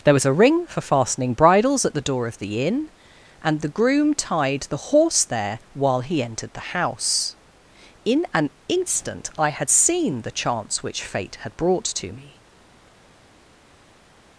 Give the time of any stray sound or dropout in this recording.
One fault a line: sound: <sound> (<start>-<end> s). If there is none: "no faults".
no faults